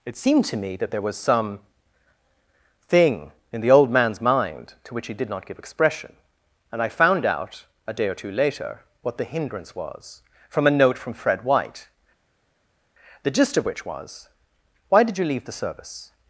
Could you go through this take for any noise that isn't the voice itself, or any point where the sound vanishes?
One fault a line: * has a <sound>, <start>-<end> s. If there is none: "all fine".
all fine